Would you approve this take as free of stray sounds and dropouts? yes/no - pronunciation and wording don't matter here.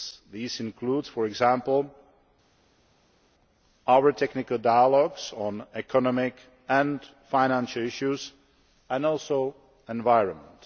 yes